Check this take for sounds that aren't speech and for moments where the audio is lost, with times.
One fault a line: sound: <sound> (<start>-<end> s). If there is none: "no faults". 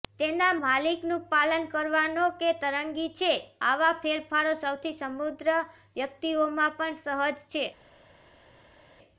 no faults